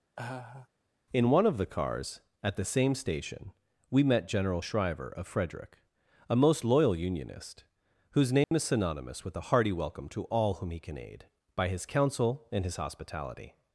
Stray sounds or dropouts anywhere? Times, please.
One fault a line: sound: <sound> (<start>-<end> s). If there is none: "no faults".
sound: laugh (0.2-0.7 s)
sound: dropout (8.4-8.5 s)